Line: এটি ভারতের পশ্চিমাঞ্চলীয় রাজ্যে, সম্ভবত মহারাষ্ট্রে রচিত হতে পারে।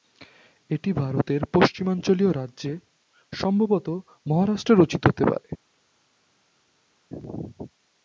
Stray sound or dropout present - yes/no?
no